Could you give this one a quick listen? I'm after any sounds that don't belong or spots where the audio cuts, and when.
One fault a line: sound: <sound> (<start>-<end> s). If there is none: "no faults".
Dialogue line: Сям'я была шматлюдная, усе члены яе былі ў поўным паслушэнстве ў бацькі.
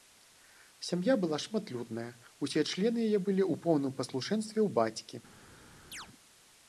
sound: chirp (5.9-6.1 s)